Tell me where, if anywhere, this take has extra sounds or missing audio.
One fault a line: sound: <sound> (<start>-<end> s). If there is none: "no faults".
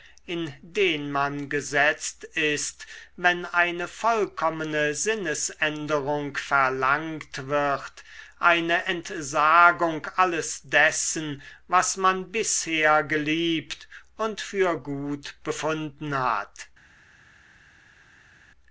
no faults